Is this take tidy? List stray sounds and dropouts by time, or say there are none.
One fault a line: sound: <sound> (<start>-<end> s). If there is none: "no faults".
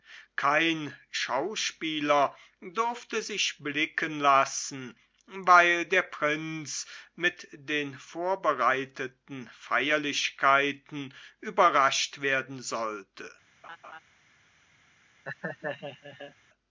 sound: laugh (13.6-14.0 s)
sound: laugh (15.2-16.3 s)